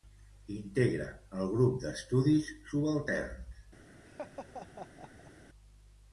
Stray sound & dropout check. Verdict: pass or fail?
fail